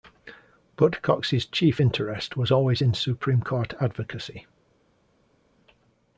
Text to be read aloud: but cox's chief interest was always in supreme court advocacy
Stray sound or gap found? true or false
false